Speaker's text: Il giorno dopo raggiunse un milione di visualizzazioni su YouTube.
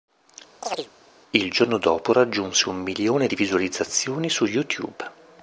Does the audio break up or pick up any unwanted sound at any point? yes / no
yes